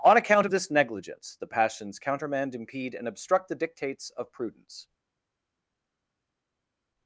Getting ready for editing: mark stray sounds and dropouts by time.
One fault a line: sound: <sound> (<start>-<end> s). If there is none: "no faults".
no faults